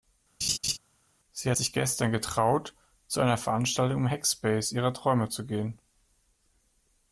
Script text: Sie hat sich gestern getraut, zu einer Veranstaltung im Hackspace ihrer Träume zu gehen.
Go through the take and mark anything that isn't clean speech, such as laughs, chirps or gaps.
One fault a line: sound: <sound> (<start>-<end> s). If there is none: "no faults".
sound: laugh (0.4-0.8 s)